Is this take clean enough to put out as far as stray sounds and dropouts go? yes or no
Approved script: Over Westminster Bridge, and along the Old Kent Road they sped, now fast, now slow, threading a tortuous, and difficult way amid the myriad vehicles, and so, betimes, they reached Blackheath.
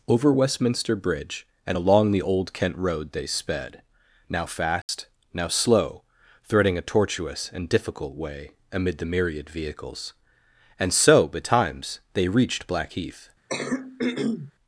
no